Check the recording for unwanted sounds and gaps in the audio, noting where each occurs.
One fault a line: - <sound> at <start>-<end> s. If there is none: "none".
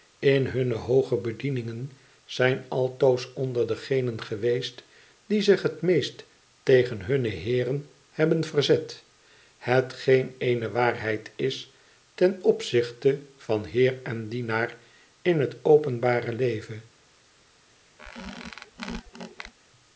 - squeak at 18.0-19.5 s